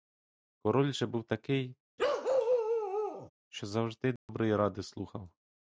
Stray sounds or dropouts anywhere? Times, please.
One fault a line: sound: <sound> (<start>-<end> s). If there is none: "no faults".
sound: bark (2.0-3.3 s)
sound: dropout (4.2-4.3 s)